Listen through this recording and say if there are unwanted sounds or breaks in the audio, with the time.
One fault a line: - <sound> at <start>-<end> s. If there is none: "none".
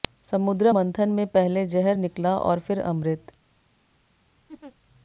- laugh at 4.5-4.8 s